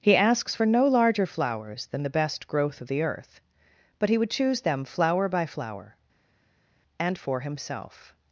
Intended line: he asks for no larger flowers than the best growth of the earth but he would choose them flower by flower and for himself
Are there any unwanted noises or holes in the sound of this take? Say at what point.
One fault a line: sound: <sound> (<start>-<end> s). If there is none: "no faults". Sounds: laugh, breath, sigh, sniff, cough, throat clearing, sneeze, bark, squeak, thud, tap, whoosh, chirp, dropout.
no faults